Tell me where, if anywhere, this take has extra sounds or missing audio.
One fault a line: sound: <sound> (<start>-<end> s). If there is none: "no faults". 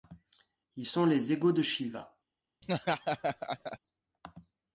sound: laugh (2.6-3.8 s)